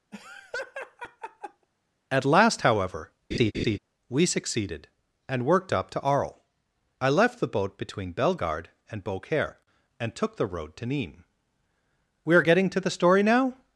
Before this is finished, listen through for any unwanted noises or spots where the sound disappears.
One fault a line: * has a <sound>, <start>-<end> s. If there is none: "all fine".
* has a laugh, 0.1-1.7 s
* has a laugh, 3.3-3.8 s